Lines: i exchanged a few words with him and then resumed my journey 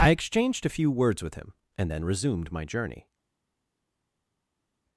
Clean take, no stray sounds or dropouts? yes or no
yes